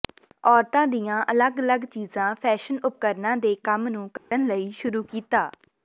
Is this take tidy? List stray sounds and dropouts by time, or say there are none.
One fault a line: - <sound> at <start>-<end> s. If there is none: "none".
- dropout at 4.2-4.3 s